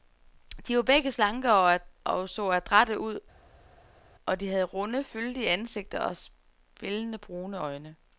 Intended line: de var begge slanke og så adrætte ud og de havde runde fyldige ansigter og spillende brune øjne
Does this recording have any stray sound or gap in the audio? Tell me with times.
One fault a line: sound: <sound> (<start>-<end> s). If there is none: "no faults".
no faults